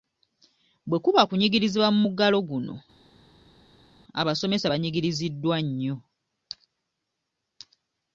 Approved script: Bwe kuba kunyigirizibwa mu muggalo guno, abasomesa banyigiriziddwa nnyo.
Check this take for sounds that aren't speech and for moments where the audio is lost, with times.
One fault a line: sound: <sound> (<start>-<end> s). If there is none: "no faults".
no faults